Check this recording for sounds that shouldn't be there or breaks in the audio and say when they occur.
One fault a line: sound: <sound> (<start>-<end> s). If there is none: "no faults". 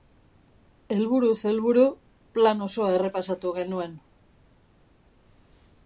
no faults